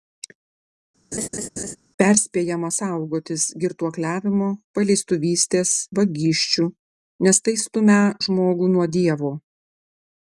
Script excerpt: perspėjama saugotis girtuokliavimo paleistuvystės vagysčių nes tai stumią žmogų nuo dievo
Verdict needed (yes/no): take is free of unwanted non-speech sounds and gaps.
no